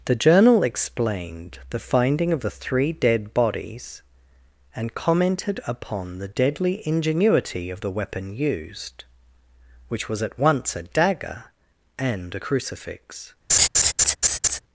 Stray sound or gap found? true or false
true